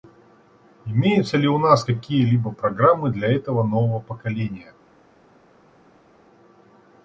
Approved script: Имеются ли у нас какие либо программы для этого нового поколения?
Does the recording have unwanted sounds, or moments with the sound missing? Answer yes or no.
no